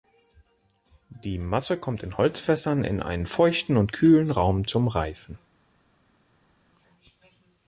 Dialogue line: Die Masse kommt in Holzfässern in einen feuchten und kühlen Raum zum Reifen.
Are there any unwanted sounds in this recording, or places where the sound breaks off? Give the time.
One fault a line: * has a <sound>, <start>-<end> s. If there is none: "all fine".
all fine